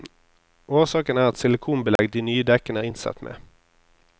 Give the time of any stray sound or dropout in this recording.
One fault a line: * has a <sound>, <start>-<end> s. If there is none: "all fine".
* has a dropout, 2.0-2.0 s